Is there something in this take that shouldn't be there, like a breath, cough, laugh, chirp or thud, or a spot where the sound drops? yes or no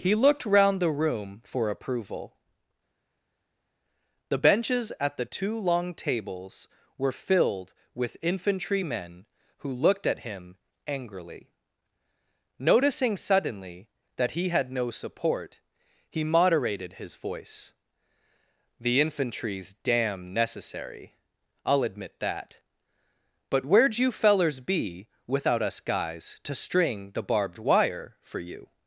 no